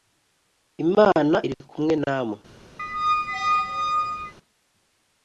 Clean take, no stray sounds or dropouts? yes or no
no